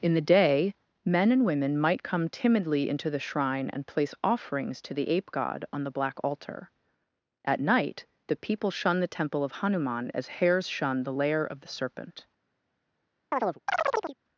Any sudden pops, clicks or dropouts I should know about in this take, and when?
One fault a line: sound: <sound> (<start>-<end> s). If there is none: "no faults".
sound: chirp (13.3-14.2 s)